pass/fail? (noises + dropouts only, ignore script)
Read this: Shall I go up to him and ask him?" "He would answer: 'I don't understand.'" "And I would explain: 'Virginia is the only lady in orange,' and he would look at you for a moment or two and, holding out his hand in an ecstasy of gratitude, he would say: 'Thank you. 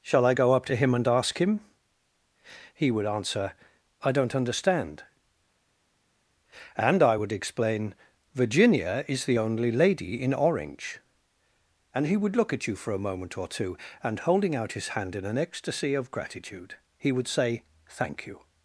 pass